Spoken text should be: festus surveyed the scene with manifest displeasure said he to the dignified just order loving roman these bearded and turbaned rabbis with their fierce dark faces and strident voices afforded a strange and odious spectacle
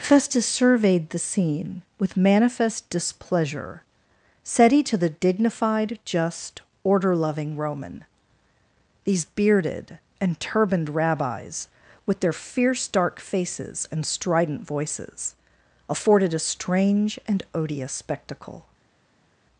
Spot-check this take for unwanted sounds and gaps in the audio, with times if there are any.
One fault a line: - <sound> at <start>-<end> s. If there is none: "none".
none